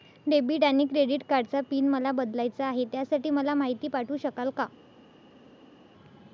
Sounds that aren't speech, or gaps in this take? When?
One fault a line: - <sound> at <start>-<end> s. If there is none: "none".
none